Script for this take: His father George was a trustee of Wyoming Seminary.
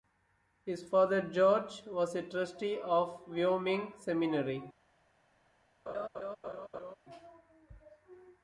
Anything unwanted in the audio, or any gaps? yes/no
yes